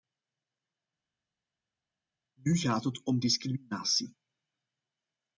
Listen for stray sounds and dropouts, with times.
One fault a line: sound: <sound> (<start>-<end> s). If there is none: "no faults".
no faults